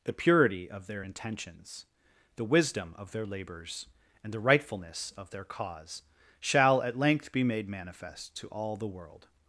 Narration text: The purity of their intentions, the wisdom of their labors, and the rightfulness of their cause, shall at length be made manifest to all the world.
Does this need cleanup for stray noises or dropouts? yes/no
no